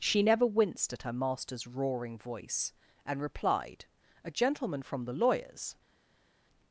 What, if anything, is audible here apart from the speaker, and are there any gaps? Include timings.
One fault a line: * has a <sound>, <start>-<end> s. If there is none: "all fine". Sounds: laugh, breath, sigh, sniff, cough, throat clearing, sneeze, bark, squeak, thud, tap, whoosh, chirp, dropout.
all fine